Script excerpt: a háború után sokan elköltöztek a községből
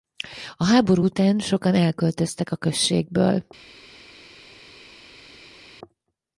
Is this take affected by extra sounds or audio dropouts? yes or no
no